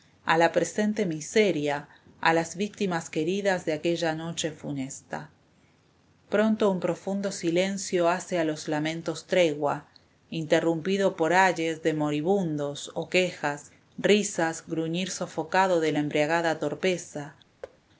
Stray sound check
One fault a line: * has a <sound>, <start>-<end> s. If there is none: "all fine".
* has a thud, 17.6-17.8 s